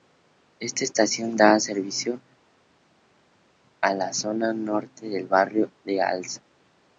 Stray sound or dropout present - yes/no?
no